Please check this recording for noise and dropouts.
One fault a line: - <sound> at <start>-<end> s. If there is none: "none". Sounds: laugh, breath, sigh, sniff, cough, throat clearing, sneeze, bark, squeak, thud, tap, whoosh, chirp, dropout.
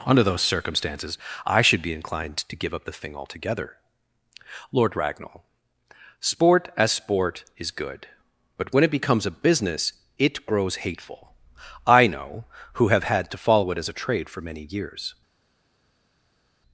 none